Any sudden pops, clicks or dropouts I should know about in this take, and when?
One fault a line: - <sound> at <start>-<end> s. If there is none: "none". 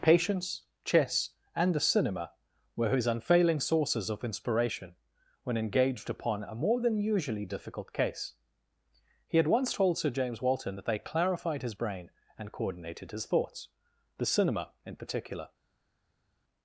none